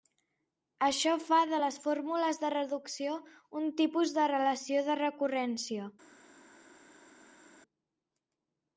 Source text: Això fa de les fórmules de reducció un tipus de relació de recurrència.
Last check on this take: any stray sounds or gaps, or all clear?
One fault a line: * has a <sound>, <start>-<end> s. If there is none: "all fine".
all fine